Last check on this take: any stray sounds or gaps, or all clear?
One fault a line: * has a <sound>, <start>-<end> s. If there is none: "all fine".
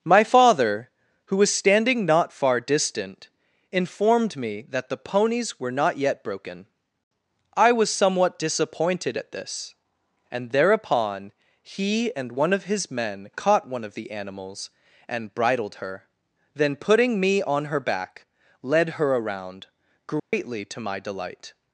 * has a dropout, 20.2-20.3 s